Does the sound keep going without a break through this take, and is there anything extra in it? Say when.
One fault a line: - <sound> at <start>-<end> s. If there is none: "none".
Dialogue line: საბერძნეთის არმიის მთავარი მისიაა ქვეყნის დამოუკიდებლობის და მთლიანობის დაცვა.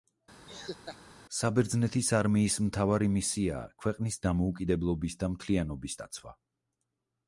- laugh at 0.5-1.0 s